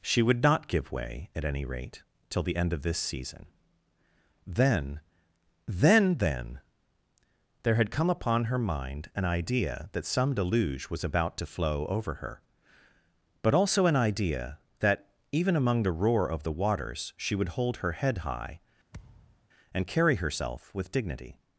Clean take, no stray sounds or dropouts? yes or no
no